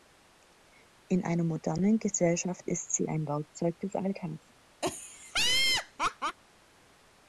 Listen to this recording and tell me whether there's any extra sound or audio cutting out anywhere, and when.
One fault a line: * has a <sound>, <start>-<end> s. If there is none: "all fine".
* has a laugh, 4.8-6.4 s